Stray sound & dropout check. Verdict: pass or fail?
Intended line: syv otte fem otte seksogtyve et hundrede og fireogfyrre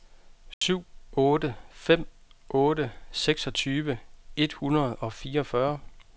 fail